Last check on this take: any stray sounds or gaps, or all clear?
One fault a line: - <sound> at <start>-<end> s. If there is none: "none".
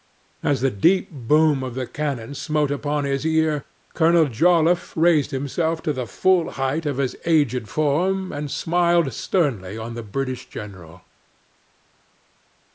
none